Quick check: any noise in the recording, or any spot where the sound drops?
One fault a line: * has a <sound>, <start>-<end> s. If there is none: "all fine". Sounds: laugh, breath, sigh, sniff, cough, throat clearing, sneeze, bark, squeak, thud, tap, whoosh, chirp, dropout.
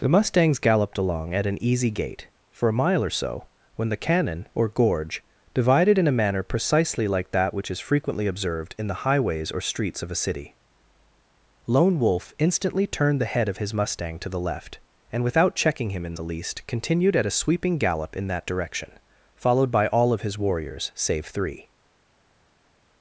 all fine